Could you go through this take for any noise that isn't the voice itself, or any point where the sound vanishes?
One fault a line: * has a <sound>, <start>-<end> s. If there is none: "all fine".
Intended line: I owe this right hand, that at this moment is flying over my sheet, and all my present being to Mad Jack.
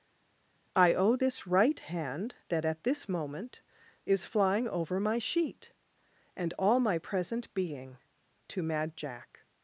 all fine